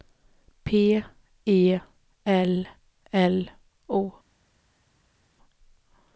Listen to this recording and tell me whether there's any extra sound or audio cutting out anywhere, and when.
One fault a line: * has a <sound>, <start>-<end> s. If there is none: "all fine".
all fine